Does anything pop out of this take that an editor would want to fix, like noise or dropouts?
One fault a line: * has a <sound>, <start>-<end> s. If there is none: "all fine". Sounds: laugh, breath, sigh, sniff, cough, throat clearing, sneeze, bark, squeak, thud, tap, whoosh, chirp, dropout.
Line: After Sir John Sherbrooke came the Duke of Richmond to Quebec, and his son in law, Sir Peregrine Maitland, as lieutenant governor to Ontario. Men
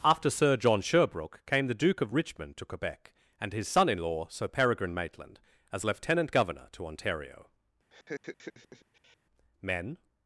* has a laugh, 7.9-9.2 s